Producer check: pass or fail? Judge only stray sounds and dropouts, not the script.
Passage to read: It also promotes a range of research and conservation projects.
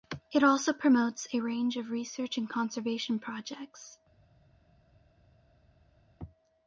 pass